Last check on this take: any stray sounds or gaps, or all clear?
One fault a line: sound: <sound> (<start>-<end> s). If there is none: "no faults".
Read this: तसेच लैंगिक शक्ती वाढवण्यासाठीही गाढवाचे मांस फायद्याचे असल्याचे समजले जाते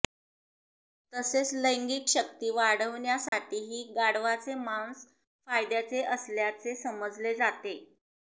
sound: dropout (3.3-3.3 s)